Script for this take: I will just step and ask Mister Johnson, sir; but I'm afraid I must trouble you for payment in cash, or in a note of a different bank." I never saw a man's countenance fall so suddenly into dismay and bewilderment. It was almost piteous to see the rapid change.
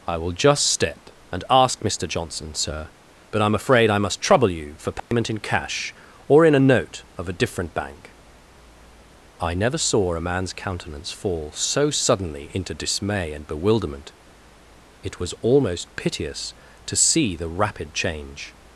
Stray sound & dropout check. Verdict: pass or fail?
fail